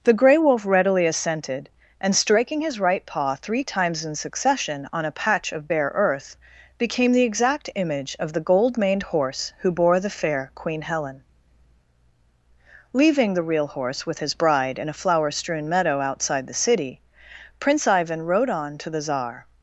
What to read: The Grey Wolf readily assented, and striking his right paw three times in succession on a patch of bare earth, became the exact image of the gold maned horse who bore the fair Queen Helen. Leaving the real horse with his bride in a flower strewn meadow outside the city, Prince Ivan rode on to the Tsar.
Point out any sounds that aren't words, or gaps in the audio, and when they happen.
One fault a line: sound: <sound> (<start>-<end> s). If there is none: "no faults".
no faults